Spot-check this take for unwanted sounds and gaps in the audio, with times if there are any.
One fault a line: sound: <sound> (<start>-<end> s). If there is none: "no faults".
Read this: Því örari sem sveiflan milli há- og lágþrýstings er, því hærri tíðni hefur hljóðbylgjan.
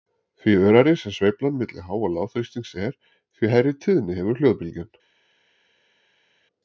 no faults